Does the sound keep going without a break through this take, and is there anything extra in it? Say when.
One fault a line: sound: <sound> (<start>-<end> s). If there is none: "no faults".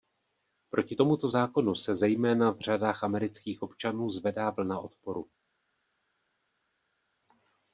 no faults